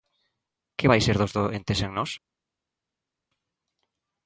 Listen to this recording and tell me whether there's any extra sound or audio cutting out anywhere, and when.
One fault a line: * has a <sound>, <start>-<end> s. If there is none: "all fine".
all fine